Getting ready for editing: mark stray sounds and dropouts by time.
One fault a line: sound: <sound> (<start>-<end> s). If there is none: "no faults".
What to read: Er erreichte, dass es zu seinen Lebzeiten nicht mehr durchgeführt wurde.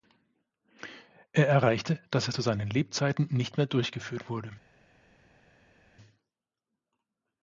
no faults